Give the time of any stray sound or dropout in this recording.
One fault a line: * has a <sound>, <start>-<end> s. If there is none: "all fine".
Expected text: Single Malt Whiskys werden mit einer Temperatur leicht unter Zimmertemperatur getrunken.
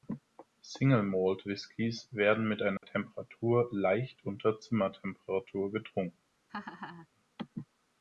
* has a dropout, 2.8-2.8 s
* has a laugh, 6.5-7.1 s